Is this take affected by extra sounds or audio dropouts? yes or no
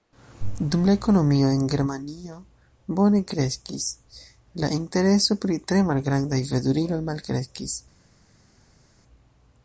no